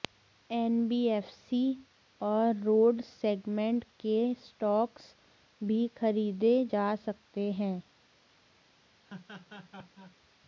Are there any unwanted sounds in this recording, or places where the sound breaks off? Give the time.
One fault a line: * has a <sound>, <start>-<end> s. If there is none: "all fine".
* has a laugh, 9.0-10.2 s